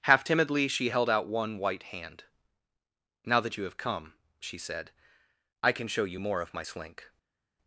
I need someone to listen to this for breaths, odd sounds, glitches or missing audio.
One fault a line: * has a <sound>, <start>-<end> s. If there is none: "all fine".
all fine